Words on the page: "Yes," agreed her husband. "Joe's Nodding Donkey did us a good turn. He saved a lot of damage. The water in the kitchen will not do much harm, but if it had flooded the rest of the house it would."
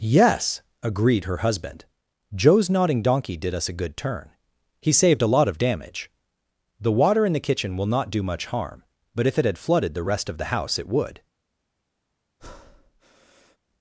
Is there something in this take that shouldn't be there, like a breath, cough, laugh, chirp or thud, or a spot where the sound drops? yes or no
yes